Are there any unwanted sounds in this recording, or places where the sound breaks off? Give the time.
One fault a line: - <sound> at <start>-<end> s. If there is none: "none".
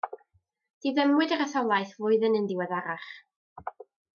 none